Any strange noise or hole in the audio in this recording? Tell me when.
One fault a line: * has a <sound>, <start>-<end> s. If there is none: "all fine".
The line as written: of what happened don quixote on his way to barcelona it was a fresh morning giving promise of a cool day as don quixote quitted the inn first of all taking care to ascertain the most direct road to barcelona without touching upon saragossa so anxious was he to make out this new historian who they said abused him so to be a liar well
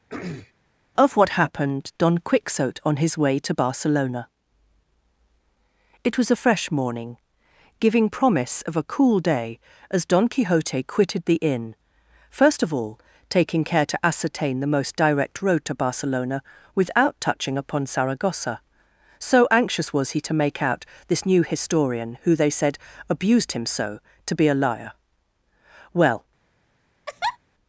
* has a throat clearing, 0.1-0.5 s
* has a laugh, 27.1-27.4 s